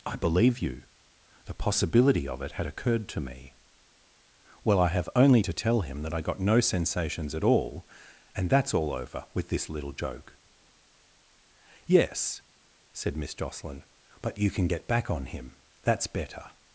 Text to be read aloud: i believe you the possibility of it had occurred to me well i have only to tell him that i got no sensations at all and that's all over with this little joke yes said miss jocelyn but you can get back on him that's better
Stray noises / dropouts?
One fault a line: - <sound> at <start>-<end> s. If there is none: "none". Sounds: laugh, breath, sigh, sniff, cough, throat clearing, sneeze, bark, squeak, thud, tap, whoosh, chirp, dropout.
none